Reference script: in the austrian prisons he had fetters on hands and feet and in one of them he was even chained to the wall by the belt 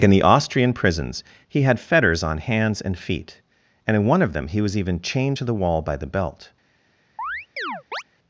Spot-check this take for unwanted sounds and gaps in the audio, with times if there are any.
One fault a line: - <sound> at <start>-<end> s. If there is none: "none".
- chirp at 7.2-8.0 s